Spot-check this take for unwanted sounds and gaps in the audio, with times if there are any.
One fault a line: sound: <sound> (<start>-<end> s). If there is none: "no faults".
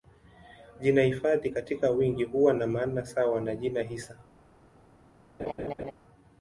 sound: laugh (5.4-5.9 s)